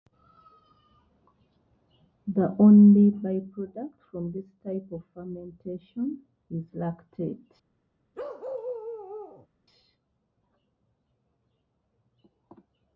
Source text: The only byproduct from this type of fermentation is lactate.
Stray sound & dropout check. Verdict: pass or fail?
fail